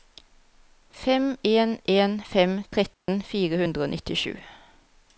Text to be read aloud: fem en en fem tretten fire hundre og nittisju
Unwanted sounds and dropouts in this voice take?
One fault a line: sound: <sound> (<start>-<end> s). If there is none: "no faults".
sound: dropout (2.9-3.1 s)